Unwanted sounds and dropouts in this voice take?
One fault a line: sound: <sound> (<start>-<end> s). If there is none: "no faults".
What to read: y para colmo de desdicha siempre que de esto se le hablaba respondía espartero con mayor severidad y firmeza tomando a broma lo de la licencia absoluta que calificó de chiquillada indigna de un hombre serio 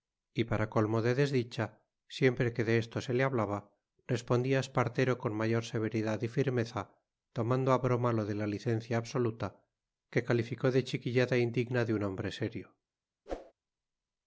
sound: whoosh (13.3-13.5 s)